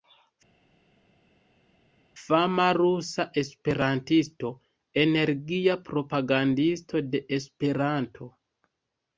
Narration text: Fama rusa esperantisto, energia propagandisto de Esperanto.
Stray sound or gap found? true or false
false